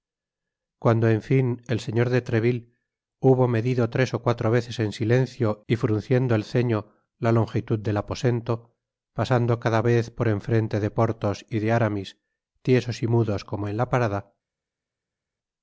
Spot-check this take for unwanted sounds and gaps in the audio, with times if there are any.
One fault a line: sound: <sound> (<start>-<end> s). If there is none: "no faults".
no faults